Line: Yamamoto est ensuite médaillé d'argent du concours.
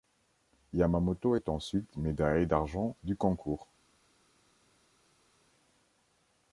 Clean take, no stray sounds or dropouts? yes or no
yes